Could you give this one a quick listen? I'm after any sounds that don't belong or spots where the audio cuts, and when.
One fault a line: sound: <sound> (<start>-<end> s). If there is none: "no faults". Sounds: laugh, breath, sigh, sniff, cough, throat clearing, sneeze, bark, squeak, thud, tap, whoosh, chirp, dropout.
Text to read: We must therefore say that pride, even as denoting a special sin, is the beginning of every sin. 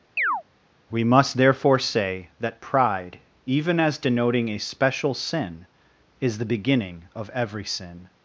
sound: chirp (0.2-0.4 s)